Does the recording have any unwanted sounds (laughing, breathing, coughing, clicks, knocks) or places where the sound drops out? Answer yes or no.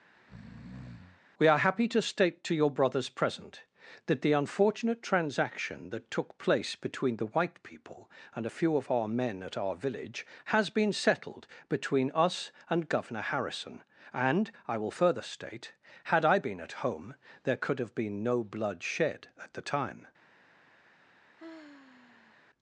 yes